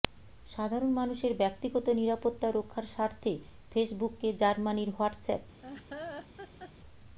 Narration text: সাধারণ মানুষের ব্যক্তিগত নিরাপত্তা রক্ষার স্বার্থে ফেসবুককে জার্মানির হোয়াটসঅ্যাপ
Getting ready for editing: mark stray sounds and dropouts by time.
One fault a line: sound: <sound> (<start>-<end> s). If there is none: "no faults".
sound: laugh (5.6-6.7 s)